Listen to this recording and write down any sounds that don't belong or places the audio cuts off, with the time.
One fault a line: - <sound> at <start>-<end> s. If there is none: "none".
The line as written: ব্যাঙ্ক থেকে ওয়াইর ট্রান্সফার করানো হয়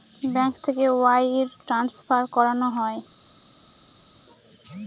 none